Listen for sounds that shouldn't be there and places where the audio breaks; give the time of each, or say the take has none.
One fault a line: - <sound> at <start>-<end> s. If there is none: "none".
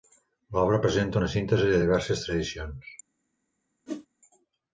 - whoosh at 3.9-4.1 s